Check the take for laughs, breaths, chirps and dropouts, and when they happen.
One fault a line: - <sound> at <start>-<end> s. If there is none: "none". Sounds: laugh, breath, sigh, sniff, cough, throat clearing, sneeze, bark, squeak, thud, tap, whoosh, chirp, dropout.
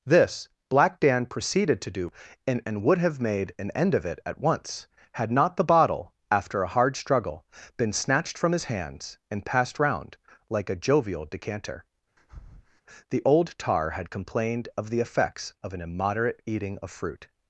- breath at 12.2-12.8 s